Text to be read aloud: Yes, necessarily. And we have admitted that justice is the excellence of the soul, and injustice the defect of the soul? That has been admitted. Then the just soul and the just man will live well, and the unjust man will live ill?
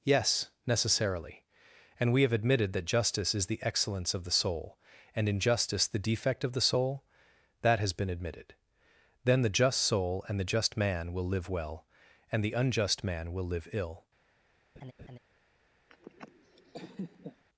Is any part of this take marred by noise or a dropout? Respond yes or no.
yes